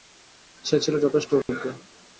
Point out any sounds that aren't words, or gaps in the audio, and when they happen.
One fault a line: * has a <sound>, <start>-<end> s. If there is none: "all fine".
* has a dropout, 1.4-1.5 s